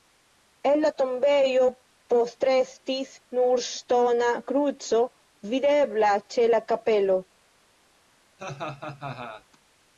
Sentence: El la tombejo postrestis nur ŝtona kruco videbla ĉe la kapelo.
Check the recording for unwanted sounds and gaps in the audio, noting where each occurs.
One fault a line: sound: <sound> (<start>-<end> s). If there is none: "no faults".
sound: laugh (8.4-9.4 s)